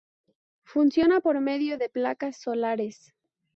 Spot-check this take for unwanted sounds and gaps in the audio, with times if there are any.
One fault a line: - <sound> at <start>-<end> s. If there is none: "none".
none